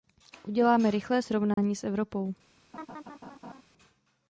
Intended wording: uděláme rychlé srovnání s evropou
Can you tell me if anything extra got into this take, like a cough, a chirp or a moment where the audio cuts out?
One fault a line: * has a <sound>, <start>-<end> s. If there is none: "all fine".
* has a dropout, 1.5-1.6 s
* has a laugh, 2.7-3.6 s